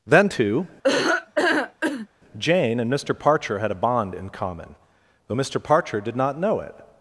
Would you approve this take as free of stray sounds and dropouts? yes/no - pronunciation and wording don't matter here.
no